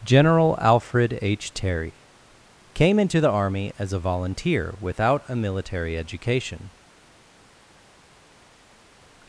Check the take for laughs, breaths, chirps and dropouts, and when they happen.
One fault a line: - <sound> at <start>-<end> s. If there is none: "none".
none